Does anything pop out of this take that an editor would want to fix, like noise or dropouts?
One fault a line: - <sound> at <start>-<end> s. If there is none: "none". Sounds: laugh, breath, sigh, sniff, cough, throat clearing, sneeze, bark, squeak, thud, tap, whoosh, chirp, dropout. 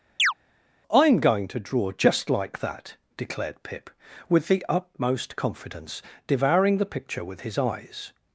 - chirp at 0.2-0.3 s